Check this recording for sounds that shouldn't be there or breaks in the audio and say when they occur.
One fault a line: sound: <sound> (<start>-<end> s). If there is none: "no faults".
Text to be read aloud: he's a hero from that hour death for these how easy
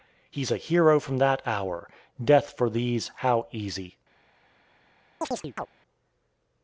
sound: chirp (5.2-5.7 s)